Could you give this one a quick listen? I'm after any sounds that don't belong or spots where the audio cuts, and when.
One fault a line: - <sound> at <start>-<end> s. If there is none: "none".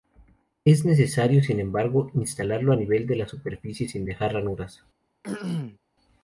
- throat clearing at 5.2-5.8 s